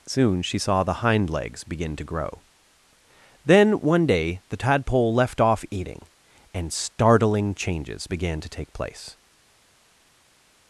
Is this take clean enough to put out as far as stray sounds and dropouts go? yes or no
yes